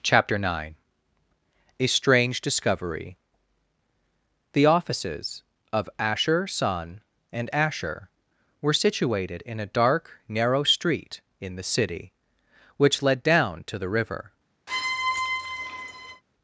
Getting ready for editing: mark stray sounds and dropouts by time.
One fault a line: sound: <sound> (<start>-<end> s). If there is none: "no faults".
sound: squeak (14.7-16.2 s)